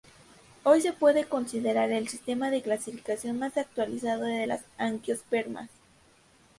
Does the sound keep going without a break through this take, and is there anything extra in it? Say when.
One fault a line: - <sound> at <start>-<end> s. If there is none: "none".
none